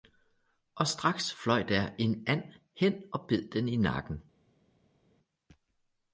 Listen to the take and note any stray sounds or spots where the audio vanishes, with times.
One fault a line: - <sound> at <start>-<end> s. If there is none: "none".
none